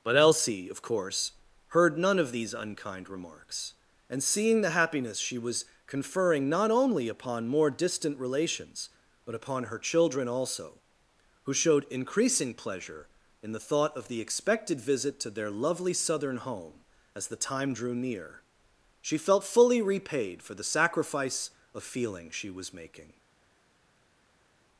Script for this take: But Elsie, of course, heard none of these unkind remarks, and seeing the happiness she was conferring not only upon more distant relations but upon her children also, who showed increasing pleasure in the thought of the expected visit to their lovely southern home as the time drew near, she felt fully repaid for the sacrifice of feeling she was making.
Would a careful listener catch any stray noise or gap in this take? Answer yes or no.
no